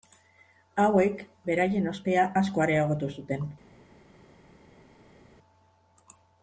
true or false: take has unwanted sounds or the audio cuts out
false